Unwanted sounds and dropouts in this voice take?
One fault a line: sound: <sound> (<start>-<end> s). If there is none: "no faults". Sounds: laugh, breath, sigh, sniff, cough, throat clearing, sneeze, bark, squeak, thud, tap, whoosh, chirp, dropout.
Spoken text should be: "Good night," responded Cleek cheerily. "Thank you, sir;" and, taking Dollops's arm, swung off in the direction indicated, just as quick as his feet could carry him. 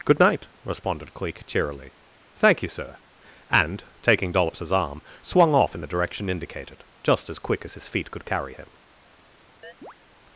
sound: chirp (9.6-9.9 s)